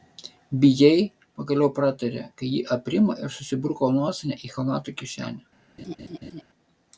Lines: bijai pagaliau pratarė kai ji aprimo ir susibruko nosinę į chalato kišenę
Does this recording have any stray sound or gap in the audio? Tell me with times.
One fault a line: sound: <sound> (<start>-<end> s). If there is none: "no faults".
sound: laugh (5.8-6.4 s)